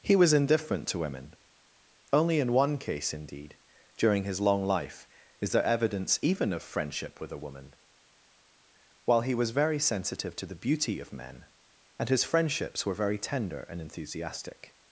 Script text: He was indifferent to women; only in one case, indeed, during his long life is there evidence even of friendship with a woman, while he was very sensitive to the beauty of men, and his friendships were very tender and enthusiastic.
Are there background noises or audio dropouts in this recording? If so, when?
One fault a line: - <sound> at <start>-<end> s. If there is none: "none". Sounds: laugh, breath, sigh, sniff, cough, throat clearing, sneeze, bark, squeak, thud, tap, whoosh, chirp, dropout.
none